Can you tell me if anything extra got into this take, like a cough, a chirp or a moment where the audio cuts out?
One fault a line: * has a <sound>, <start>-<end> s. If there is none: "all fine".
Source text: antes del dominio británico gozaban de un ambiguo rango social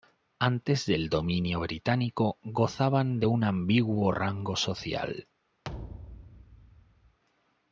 * has a thud, 5.6-7.2 s